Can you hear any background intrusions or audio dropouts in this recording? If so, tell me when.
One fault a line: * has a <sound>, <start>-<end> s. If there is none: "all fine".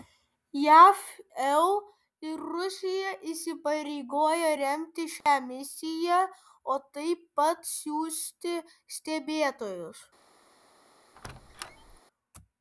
* has a dropout, 5.2-5.3 s
* has a squeak, 11.2-12.0 s